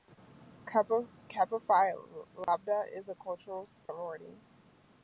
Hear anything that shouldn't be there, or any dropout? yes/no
yes